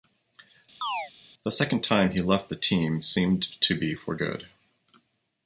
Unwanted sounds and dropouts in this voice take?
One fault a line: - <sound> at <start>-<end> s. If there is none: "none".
- chirp at 0.8-1.1 s